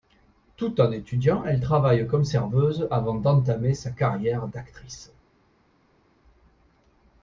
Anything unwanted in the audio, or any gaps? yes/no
no